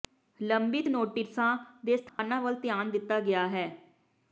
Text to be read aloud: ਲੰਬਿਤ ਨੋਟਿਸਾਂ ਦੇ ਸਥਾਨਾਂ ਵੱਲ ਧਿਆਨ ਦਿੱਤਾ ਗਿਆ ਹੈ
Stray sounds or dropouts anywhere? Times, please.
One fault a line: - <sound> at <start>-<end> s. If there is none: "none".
- dropout at 2.1-2.2 s